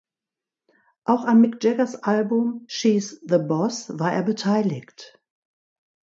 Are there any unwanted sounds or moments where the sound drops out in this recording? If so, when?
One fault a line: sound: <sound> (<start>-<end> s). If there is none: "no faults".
no faults